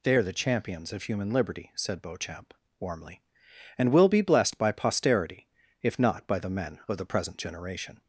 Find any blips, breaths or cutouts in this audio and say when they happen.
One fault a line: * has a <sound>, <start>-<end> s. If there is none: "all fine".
all fine